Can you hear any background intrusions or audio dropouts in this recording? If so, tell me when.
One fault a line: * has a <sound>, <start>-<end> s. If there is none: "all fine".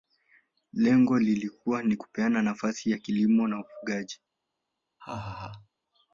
* has a laugh, 5.0-5.7 s